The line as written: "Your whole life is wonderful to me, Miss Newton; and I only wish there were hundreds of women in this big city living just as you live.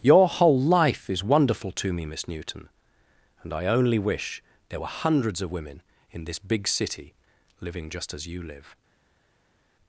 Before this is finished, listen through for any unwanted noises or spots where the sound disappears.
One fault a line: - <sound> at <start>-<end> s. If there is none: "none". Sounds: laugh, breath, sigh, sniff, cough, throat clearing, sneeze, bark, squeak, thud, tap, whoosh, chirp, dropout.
none